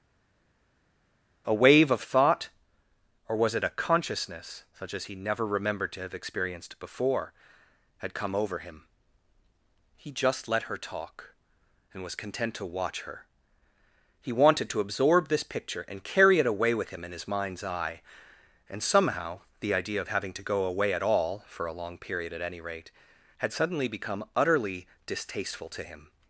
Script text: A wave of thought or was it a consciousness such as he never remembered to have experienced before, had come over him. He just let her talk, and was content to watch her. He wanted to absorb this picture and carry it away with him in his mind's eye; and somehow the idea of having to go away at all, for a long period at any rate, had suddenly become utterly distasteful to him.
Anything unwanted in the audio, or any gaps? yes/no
no